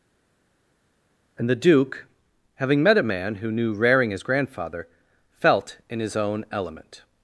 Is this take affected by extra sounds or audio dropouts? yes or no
no